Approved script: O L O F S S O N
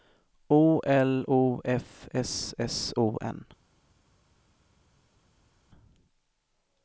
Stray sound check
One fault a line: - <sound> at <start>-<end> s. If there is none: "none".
none